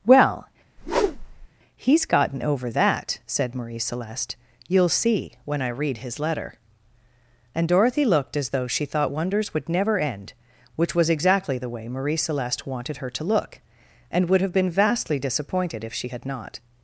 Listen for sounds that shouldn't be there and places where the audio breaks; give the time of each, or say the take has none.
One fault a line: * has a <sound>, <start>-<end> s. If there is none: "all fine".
* has a whoosh, 0.8-1.5 s